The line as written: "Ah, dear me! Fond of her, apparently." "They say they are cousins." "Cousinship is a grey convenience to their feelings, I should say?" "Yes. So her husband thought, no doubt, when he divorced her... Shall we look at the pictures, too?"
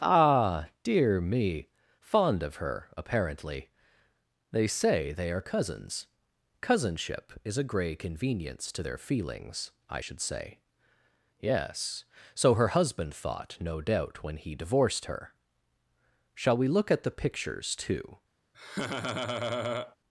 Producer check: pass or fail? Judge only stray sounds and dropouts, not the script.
fail